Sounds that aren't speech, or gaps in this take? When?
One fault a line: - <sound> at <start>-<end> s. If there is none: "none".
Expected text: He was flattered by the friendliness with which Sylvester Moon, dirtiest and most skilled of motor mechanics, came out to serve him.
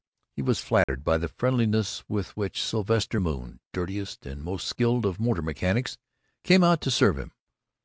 - dropout at 0.8-0.9 s